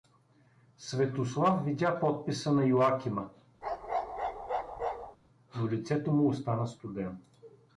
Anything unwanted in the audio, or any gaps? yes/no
yes